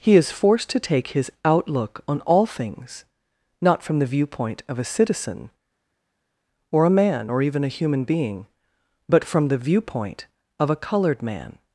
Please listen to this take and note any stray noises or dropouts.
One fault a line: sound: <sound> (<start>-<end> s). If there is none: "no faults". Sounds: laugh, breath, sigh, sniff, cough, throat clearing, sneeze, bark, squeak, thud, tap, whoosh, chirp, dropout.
no faults